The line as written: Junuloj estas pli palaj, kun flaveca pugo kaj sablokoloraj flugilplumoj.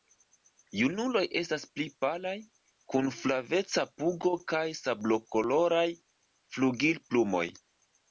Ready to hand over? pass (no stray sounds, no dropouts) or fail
pass